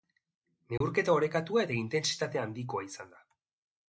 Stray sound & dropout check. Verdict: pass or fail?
fail